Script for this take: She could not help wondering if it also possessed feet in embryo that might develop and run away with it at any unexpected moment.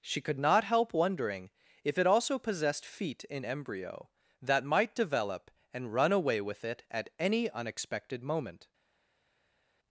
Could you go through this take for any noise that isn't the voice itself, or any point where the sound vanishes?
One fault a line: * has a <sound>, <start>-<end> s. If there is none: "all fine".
all fine